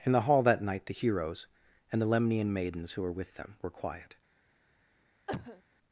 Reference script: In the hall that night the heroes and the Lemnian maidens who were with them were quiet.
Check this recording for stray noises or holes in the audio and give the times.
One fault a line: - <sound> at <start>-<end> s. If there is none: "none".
- cough at 5.3-5.6 s